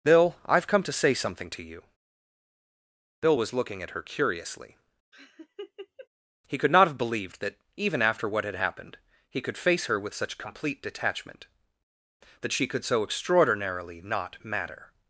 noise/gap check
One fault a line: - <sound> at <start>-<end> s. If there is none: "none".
- laugh at 5.1-6.1 s